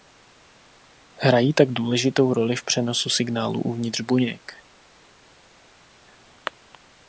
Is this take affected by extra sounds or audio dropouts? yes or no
no